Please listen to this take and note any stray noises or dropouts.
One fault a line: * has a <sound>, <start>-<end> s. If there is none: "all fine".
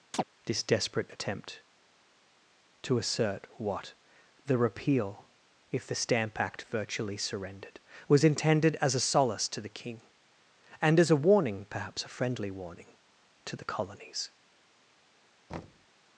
* has a chirp, 0.1-0.2 s
* has a thud, 15.5-15.9 s